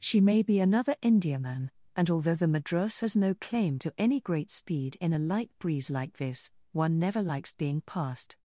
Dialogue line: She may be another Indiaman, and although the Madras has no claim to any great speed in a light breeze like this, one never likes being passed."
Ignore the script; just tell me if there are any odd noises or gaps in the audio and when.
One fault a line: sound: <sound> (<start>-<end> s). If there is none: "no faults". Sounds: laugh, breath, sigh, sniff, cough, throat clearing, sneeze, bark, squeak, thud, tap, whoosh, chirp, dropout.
no faults